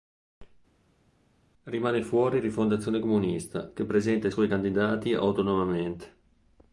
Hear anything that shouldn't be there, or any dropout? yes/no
no